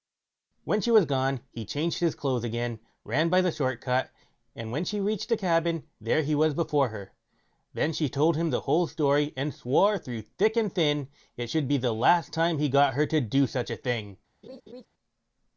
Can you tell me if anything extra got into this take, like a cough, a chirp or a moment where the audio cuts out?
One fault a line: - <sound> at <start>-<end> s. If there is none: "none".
- laugh at 14.4-14.9 s